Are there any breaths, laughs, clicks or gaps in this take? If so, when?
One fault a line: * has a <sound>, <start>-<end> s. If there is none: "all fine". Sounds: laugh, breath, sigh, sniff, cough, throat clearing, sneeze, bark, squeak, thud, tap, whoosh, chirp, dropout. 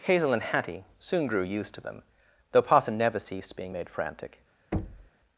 * has a thud, 4.7-5.1 s